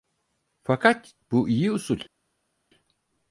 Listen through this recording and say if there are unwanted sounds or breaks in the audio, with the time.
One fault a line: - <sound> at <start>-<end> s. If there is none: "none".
none